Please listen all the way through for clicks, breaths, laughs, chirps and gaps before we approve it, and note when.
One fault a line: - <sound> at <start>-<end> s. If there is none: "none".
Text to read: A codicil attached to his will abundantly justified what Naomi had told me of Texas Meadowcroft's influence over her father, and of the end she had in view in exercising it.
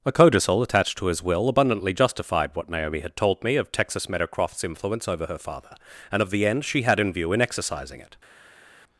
none